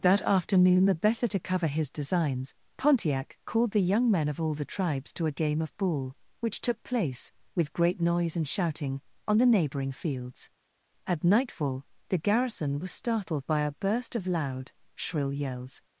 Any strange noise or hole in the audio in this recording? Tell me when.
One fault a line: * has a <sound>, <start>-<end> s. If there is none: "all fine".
all fine